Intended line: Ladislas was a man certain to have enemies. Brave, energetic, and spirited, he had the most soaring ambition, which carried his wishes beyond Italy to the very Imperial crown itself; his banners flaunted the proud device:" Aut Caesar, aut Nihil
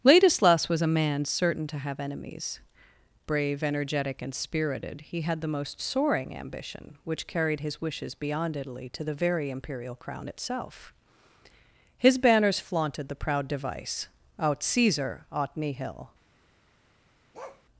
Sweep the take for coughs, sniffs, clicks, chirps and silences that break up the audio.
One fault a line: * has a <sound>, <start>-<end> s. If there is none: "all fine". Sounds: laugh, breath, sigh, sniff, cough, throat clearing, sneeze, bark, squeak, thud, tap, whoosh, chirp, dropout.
* has a bark, 17.3-17.6 s